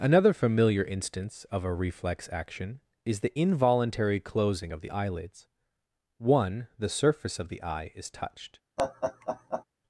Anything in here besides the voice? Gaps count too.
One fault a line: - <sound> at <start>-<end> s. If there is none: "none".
- laugh at 8.8-9.6 s